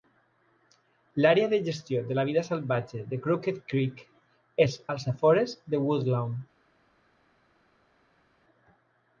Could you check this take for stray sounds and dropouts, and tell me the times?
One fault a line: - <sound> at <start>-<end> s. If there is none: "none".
none